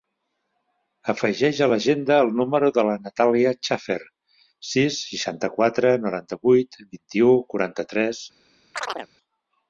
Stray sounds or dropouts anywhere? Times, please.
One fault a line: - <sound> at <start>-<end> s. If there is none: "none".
- chirp at 8.7-9.1 s